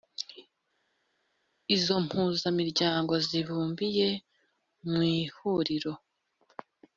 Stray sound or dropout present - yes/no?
no